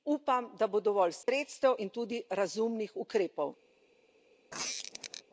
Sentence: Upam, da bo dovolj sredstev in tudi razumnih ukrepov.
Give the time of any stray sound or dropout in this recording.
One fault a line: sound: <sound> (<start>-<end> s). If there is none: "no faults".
sound: dropout (1.2-1.3 s)
sound: squeak (4.5-5.2 s)